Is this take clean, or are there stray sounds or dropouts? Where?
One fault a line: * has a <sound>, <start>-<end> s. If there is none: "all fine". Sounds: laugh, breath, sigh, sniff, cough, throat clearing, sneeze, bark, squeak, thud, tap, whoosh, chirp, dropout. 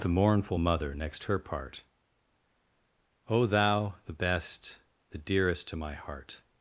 all fine